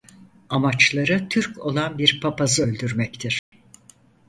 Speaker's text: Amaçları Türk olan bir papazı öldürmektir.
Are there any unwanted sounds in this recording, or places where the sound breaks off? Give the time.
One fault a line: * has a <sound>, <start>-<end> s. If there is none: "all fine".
* has a dropout, 3.4-3.5 s